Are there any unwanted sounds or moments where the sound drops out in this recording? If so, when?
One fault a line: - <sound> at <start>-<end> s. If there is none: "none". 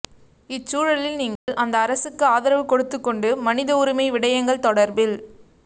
- dropout at 1.4-1.5 s